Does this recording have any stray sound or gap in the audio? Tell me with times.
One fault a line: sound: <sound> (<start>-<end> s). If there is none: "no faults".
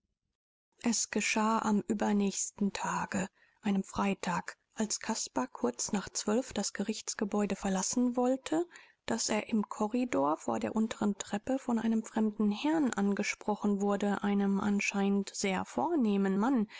no faults